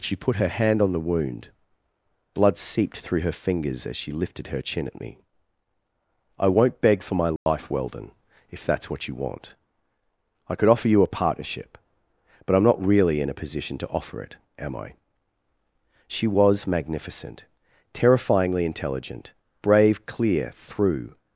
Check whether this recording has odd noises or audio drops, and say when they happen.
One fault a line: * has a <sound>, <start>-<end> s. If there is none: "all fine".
* has a dropout, 7.4-7.5 s